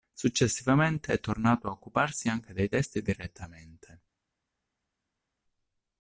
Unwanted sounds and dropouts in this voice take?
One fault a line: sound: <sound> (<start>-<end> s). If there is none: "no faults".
no faults